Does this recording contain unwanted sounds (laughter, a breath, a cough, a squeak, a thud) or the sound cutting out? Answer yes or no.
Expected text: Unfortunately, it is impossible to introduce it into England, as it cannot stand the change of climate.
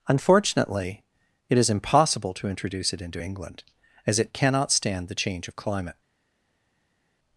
no